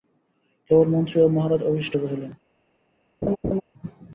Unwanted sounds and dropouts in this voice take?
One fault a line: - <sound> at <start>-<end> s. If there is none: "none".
- laugh at 3.2-3.6 s